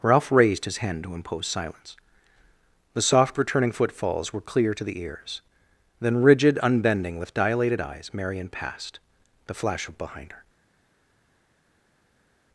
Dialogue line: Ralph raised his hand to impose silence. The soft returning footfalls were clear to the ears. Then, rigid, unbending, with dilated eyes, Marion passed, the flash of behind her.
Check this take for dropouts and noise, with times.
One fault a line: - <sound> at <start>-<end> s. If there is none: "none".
none